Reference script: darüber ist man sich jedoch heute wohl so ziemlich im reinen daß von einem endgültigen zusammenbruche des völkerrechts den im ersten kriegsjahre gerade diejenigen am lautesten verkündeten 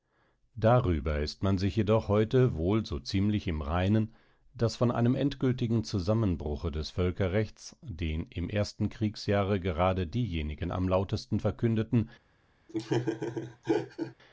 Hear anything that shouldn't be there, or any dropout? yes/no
yes